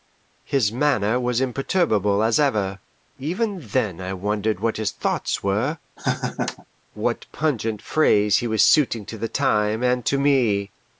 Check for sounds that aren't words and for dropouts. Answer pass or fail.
fail